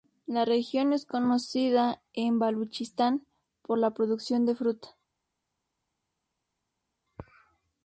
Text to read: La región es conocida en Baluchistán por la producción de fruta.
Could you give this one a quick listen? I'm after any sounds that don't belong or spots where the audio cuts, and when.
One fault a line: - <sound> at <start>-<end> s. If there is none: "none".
none